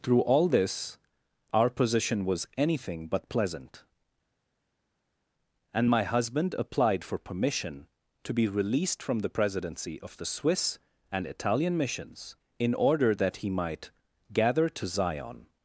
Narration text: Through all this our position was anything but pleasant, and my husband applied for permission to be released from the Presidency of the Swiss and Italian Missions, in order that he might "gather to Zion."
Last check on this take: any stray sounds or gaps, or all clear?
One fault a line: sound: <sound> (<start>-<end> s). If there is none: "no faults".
no faults